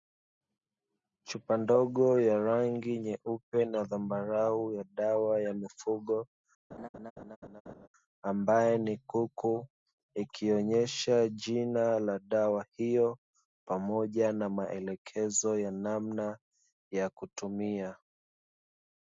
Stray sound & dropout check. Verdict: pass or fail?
fail